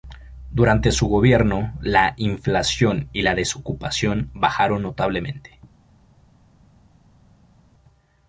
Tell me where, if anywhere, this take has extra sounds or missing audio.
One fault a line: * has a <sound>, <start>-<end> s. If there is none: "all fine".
all fine